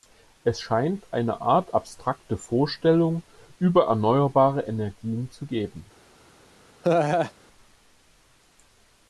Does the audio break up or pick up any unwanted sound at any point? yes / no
yes